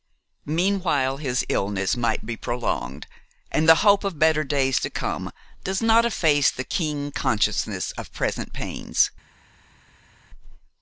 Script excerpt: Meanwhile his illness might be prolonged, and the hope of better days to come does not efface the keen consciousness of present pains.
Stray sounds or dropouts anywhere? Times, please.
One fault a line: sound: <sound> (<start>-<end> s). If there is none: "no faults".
no faults